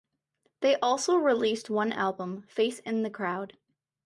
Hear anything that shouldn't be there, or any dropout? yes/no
no